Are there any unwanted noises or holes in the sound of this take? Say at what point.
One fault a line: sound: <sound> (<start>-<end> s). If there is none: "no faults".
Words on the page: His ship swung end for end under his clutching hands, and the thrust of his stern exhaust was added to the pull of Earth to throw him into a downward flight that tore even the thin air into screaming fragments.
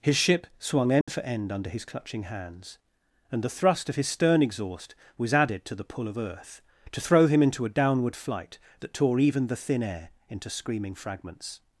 sound: dropout (1.0-1.1 s)